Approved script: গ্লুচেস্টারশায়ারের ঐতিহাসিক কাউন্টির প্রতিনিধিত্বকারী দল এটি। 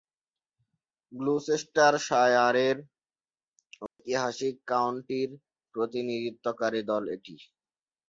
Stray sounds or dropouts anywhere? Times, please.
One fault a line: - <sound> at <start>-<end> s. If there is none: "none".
- dropout at 3.9-4.0 s